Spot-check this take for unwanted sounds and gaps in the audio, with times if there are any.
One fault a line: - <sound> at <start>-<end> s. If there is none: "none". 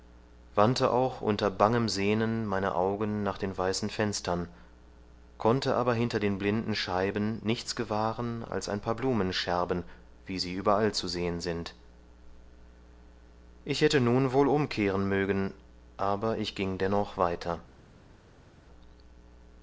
none